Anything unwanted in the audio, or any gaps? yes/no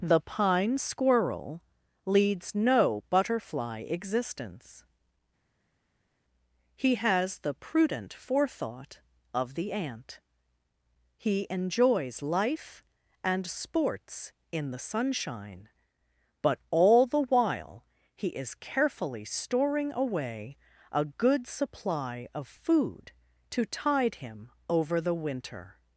no